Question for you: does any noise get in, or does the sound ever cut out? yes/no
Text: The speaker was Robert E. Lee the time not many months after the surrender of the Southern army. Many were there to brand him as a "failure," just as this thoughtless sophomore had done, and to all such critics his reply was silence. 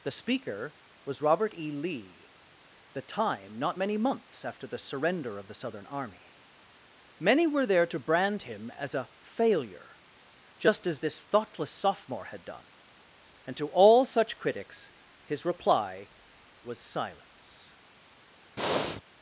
yes